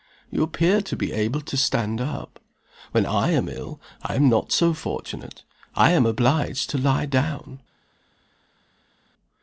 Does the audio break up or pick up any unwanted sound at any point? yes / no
no